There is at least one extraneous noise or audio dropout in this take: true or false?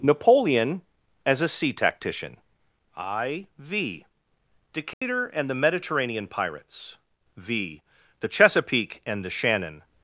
true